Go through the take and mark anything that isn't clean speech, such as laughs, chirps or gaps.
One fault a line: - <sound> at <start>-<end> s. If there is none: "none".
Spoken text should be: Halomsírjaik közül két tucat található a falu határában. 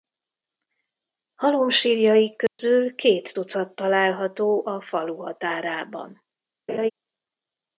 - dropout at 2.5-2.6 s
- laugh at 6.7-6.9 s